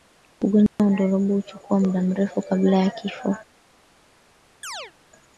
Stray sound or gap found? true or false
true